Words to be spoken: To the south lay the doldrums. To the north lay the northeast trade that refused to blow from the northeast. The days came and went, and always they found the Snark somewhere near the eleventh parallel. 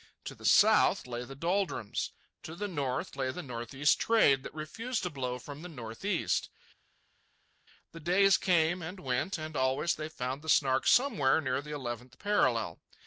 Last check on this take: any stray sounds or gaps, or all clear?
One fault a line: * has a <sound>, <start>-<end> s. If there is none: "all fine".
all fine